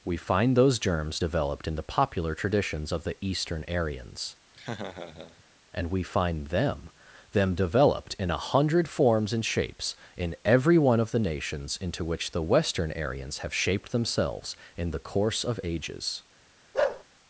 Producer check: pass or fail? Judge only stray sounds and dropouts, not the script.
fail